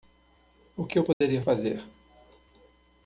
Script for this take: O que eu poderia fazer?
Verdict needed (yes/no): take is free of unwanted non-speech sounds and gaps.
no